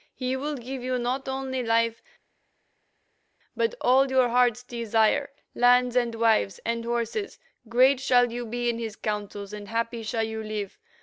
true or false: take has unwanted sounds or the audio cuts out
false